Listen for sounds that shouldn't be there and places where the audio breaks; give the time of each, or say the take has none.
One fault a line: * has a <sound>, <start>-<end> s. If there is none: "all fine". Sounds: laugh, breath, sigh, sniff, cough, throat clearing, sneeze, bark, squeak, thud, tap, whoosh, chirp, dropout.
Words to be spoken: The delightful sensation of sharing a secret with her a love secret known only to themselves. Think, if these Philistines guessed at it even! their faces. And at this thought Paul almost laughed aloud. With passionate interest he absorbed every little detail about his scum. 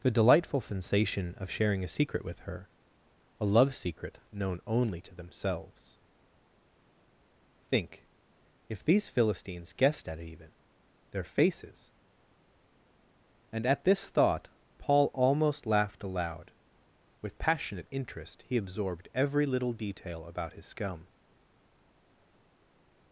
all fine